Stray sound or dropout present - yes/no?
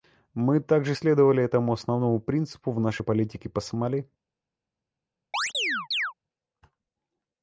yes